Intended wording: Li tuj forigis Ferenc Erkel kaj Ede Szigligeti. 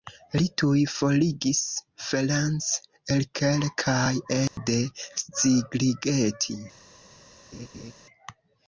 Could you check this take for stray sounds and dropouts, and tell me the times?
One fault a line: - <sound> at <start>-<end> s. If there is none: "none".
- dropout at 4.5-4.6 s
- laugh at 7.5-7.9 s